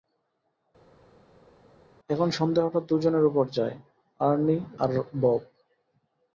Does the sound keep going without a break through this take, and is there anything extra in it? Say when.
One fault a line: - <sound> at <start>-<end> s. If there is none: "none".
none